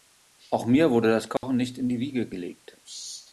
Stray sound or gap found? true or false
true